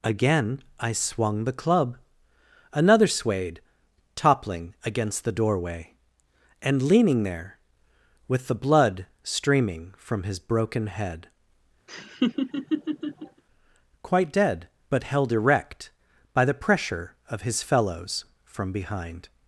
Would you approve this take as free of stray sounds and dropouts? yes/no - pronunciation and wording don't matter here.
no